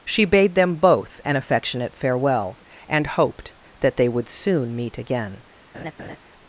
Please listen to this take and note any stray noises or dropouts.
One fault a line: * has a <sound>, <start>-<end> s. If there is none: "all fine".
* has a laugh, 5.7-6.2 s